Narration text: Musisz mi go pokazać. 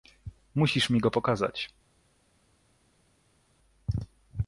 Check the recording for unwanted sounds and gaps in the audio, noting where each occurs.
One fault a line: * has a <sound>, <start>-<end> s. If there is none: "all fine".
all fine